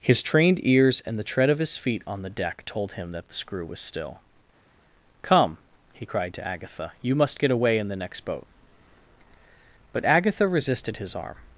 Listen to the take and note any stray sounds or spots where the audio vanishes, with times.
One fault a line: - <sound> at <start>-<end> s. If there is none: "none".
none